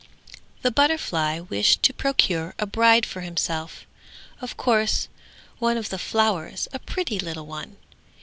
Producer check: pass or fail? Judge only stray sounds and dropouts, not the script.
pass